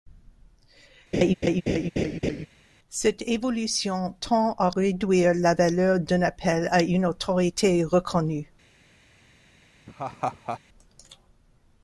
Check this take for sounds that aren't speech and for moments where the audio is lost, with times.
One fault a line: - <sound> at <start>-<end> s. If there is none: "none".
- laugh at 1.1-2.5 s
- laugh at 9.9-10.6 s